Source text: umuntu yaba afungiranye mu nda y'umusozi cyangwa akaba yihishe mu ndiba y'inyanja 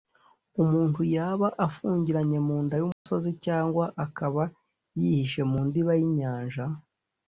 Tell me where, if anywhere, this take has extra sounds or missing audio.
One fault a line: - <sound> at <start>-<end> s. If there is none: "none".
- dropout at 2.9-3.1 s